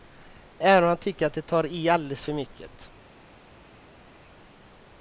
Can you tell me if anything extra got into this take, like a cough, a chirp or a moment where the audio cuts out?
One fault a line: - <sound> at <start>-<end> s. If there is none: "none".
none